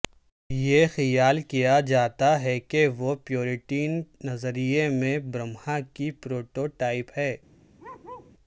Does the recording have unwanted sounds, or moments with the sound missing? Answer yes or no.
yes